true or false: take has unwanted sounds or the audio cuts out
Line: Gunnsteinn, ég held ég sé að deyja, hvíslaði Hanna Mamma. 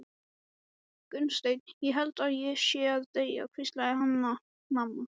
false